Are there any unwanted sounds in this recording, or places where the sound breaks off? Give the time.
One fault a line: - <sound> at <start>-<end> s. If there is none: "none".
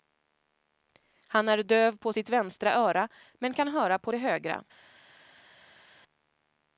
none